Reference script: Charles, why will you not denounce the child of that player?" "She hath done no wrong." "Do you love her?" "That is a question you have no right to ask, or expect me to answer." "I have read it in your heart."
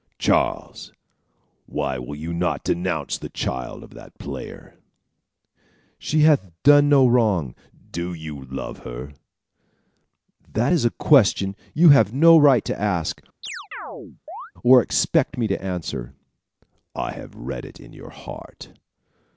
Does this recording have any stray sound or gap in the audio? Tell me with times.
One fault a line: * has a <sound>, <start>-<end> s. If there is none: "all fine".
* has a chirp, 13.4-14.5 s